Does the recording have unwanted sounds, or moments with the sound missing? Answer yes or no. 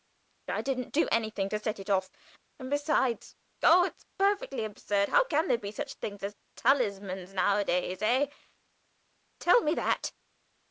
no